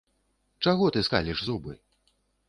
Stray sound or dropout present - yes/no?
no